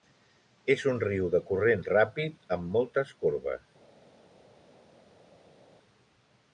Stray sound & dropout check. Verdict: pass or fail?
pass